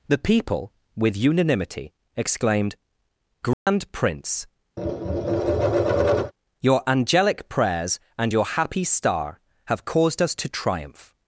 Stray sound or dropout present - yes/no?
yes